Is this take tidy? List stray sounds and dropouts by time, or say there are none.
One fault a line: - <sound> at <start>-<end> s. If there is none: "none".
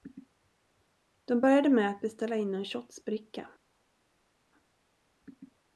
none